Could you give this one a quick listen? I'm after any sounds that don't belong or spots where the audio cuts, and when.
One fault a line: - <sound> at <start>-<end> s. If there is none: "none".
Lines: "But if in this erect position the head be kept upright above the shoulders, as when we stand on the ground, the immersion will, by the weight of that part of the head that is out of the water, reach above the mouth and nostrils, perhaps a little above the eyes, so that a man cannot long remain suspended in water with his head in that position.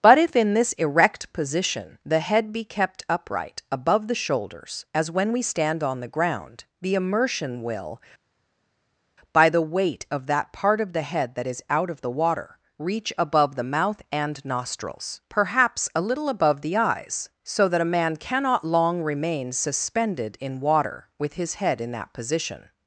none